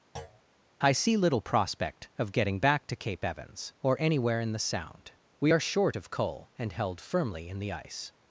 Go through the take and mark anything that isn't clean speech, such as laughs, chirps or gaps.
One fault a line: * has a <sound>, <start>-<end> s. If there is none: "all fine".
* has a thud, 0.1-0.4 s